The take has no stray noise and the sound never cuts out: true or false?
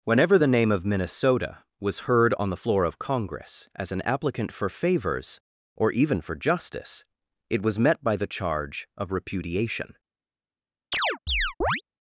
false